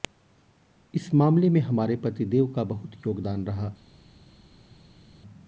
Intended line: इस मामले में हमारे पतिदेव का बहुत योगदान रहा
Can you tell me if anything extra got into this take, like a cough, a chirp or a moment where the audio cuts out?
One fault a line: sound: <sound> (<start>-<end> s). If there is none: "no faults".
no faults